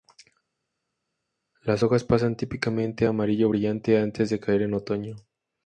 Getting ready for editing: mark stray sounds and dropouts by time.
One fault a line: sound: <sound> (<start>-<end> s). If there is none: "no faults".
no faults